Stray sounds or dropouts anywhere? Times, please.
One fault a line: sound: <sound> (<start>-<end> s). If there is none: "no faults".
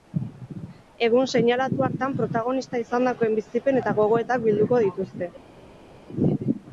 no faults